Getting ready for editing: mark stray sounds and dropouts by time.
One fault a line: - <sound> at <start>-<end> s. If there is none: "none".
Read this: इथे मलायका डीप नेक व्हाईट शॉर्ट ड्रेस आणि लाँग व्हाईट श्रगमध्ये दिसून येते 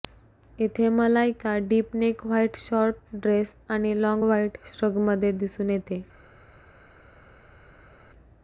none